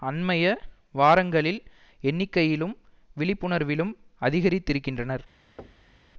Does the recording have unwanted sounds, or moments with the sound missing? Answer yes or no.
yes